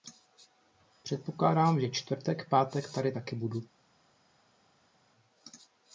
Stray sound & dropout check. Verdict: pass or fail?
pass